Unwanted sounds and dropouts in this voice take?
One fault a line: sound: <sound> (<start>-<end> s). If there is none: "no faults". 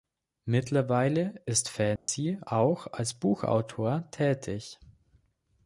sound: dropout (2.0-2.1 s)